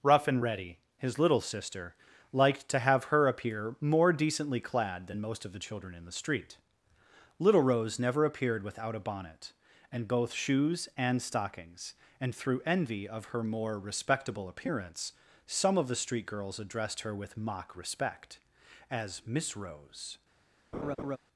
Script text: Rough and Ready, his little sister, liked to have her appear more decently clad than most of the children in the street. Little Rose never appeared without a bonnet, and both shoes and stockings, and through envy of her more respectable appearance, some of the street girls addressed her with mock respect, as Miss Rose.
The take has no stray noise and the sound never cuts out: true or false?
false